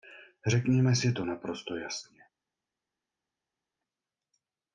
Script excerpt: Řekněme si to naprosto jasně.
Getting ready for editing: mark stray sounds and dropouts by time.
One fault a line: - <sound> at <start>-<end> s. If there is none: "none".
none